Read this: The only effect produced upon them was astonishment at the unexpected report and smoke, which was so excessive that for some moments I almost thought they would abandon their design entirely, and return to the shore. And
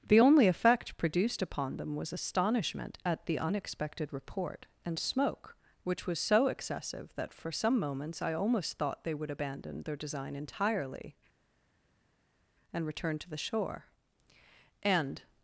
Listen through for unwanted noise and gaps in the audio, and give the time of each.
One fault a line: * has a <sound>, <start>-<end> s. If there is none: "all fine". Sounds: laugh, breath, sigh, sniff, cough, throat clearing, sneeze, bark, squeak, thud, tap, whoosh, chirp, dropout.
all fine